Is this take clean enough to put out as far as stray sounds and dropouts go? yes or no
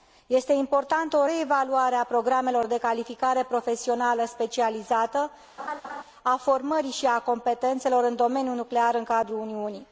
no